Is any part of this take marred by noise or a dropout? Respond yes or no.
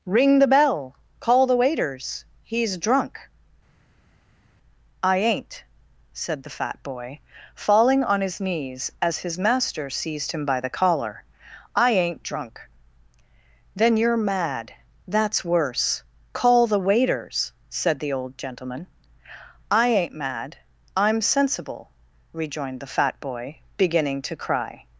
no